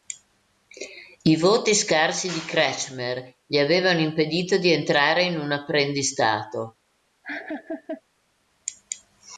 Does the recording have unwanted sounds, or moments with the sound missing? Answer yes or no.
yes